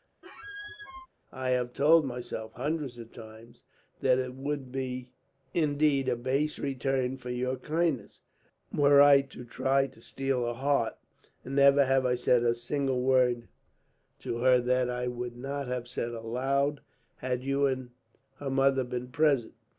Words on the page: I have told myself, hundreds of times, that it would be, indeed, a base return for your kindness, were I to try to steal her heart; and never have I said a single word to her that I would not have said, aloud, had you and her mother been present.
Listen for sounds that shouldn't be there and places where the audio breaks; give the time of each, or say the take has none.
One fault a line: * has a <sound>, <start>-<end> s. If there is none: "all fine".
* has a squeak, 0.2-1.1 s